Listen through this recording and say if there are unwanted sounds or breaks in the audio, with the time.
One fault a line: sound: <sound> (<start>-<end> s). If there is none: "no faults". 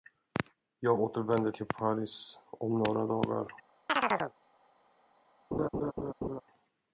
sound: chirp (3.9-4.3 s)
sound: laugh (5.5-6.4 s)